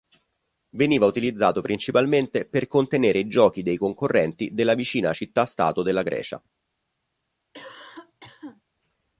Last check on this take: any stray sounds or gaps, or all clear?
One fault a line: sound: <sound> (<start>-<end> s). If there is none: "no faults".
sound: cough (7.5-8.6 s)